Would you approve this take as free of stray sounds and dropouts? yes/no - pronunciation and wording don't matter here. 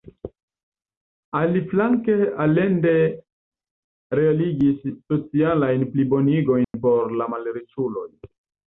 no